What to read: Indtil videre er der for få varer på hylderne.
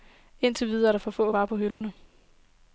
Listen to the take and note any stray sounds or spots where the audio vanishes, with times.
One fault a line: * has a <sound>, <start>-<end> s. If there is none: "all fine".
* has a dropout, 1.7-1.8 s